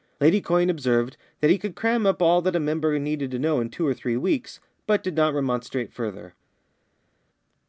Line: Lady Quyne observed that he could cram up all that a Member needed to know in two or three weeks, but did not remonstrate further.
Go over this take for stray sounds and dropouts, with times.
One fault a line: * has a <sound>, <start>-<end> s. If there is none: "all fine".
all fine